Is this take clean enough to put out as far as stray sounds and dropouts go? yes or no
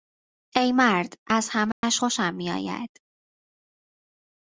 no